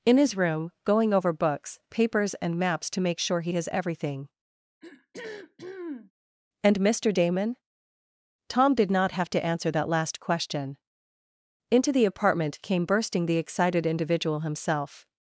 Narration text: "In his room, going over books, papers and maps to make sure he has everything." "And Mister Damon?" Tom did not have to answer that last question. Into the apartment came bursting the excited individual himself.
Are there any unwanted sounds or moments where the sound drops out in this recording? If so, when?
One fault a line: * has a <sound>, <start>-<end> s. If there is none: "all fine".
* has a throat clearing, 4.8-6.1 s